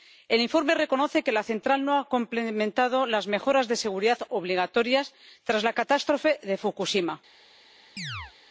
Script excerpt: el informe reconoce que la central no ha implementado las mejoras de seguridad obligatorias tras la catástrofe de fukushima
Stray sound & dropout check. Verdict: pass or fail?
fail